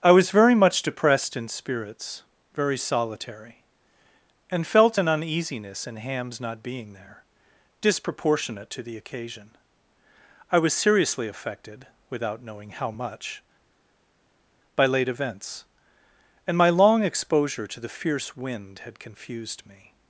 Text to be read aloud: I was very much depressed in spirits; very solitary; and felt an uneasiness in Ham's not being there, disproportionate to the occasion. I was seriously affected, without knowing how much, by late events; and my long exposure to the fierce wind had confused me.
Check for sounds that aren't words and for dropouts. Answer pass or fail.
pass